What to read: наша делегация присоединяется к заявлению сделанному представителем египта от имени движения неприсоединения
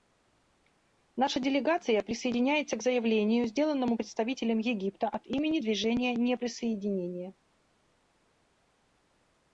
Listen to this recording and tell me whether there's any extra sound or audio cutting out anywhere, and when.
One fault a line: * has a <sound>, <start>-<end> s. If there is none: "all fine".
all fine